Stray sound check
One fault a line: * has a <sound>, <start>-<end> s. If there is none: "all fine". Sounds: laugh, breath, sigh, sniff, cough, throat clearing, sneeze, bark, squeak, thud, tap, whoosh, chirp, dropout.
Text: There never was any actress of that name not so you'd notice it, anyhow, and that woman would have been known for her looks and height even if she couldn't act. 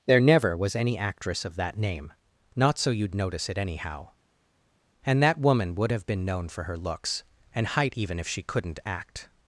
all fine